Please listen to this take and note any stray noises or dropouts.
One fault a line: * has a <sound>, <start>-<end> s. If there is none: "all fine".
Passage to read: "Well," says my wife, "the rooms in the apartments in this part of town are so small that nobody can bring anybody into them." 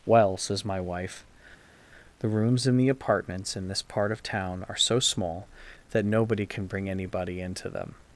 all fine